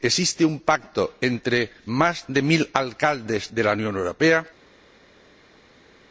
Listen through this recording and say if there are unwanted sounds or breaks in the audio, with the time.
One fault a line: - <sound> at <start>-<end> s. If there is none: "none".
none